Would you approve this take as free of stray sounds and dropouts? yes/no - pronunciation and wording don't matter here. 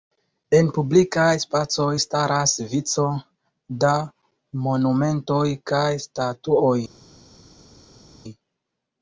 yes